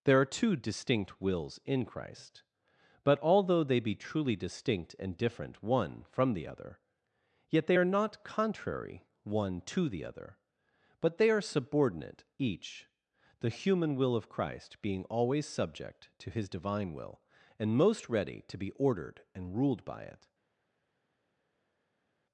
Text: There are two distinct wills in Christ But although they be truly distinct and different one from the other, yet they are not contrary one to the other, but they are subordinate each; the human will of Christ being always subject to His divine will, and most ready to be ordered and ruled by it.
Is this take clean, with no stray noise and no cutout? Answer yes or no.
yes